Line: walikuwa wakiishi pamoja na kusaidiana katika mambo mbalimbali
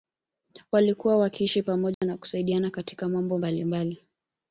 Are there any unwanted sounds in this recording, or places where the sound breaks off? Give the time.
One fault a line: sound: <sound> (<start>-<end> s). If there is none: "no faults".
sound: dropout (1.9-2.0 s)